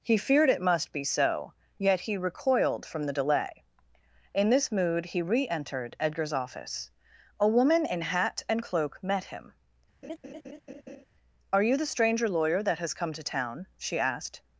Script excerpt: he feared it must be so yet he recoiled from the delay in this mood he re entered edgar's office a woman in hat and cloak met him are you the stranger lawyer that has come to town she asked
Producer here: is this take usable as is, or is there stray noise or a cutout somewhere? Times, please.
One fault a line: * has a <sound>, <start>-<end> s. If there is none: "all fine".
* has a laugh, 10.0-11.0 s